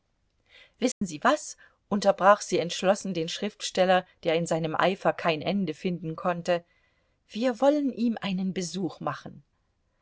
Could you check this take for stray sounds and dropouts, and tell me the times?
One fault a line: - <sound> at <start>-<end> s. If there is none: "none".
- dropout at 0.9-1.0 s